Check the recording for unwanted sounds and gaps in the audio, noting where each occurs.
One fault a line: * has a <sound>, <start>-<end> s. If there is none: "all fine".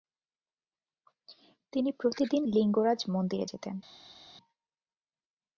all fine